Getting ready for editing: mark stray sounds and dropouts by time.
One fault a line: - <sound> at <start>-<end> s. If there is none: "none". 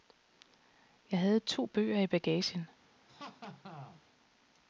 - laugh at 3.1-4.0 s